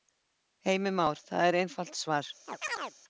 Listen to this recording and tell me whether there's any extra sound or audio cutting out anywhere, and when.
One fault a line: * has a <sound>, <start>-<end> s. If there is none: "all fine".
* has a chirp, 2.5-2.9 s